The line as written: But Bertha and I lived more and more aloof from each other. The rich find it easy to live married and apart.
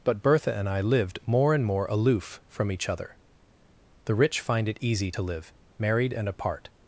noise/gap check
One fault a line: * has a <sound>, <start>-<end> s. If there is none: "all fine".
all fine